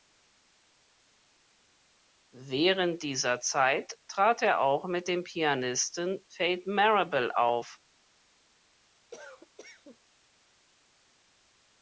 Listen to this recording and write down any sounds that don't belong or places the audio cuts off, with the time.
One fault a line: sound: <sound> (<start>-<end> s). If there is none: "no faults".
sound: cough (9.1-10.0 s)